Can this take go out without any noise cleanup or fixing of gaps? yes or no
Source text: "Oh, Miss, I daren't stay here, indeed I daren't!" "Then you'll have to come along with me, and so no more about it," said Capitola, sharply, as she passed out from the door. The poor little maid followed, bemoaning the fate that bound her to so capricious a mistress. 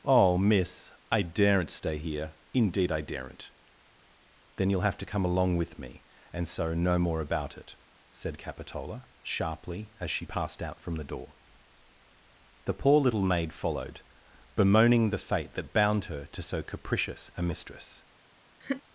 no